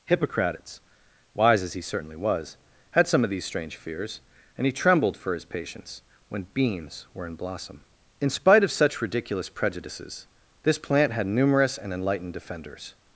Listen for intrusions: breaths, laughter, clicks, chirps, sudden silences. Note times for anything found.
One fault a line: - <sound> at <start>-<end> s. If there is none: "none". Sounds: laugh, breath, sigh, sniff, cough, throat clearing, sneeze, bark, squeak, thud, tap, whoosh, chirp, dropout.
none